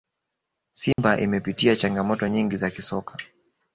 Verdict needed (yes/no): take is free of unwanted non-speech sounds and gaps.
no